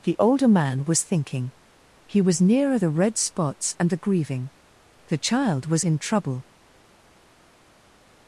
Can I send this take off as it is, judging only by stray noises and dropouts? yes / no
yes